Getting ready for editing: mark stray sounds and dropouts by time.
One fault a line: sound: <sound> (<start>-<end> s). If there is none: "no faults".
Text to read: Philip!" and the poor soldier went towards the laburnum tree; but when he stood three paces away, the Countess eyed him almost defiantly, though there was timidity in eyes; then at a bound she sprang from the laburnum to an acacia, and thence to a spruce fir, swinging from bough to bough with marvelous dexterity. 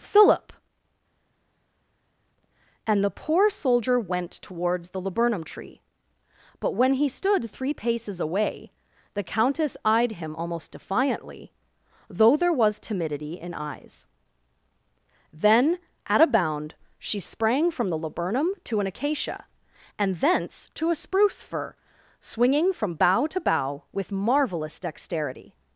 no faults